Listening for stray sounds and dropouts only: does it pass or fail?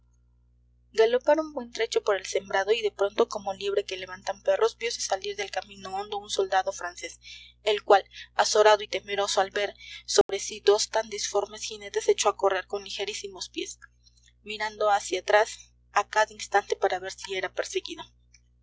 fail